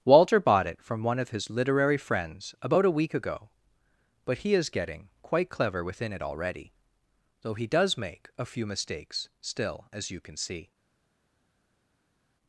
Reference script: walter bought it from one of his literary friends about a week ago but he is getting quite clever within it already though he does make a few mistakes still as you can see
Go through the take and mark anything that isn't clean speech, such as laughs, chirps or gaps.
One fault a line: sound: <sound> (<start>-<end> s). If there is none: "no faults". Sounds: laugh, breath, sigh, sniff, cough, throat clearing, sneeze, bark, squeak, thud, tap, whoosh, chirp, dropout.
no faults